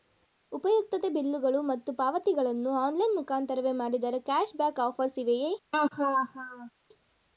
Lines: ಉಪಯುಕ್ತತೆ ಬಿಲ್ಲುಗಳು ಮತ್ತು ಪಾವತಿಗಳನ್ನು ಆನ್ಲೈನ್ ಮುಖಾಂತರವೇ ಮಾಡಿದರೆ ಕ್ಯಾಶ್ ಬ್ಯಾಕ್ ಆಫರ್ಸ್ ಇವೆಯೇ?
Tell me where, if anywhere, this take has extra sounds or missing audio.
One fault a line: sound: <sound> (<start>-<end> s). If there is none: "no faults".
sound: laugh (5.7-6.7 s)